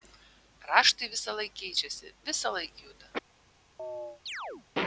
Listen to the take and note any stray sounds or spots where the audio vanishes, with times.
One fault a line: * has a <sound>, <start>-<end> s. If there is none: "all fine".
* has a chirp, 3.8-4.7 s